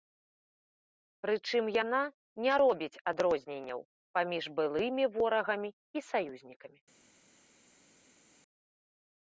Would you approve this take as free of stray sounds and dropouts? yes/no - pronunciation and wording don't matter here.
yes